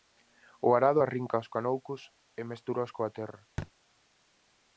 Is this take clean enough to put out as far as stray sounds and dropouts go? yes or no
no